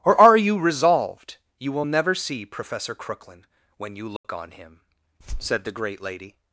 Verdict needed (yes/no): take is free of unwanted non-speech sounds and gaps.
no